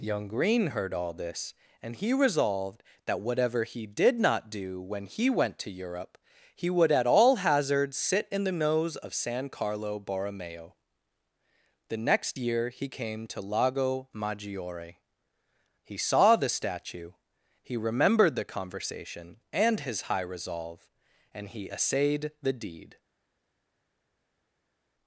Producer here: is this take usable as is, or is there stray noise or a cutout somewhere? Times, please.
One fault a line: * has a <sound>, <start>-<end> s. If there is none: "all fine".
all fine